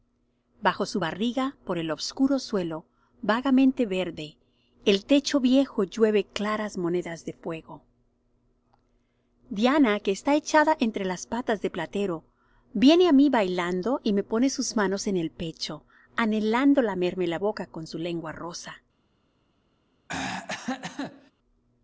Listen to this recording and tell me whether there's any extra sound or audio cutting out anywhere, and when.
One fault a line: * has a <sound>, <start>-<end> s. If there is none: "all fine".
* has a throat clearing, 20.1-21.3 s